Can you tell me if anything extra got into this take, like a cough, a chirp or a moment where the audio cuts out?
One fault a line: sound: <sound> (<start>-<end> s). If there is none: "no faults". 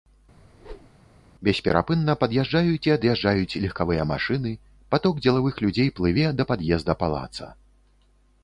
sound: whoosh (0.4-1.0 s)